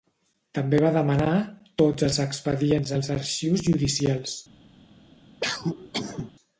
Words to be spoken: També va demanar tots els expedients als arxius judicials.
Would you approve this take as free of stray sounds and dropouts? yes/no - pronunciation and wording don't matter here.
no